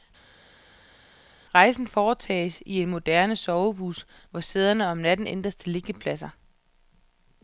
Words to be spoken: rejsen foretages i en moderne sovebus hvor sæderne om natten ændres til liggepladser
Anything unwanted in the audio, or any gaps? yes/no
no